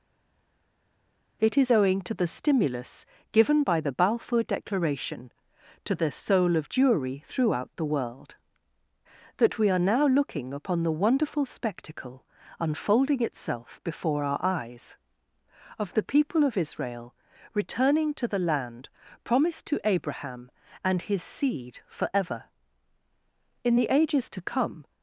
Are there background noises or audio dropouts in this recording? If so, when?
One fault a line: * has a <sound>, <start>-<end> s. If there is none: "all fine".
all fine